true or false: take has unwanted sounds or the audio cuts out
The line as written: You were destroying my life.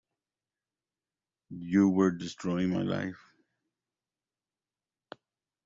false